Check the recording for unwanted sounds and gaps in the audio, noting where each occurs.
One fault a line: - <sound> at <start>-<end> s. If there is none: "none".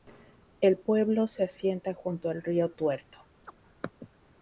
- chirp at 3.4-3.5 s